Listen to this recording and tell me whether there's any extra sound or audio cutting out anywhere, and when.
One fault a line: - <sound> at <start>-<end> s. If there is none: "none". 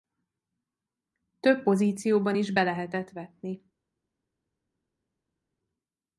none